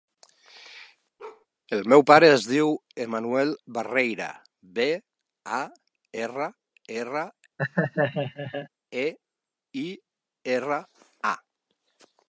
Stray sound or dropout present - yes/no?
yes